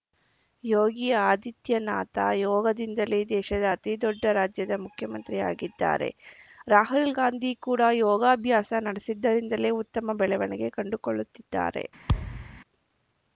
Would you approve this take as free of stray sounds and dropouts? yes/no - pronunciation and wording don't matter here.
no